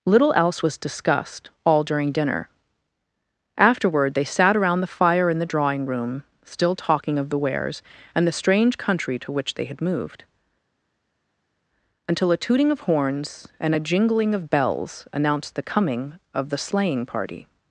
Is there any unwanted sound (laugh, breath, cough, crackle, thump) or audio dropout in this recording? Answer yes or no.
no